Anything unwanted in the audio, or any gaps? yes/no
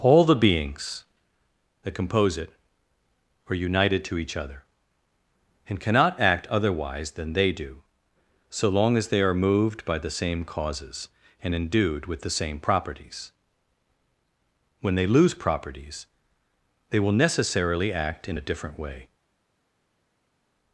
no